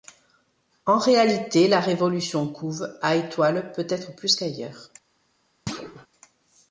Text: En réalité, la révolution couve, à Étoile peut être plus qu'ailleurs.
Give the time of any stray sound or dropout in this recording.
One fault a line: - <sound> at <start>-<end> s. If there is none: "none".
- thud at 5.7-6.1 s